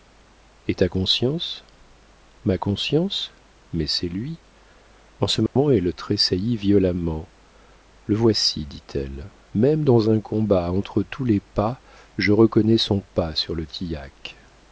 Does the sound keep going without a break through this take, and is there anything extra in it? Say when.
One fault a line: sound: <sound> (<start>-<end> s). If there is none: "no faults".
sound: dropout (5.5-5.6 s)